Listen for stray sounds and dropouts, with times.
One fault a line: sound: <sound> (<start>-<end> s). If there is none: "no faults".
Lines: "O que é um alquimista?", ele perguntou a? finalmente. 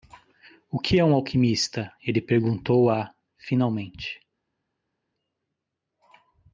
no faults